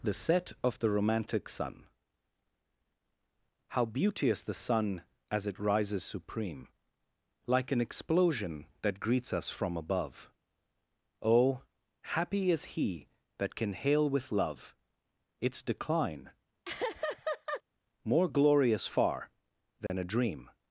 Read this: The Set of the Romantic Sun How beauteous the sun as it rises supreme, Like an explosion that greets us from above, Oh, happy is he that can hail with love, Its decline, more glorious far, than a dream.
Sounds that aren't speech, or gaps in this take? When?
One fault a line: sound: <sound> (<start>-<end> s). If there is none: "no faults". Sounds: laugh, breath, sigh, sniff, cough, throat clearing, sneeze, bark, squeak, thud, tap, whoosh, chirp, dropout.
sound: laugh (16.6-17.6 s)
sound: dropout (19.9-19.9 s)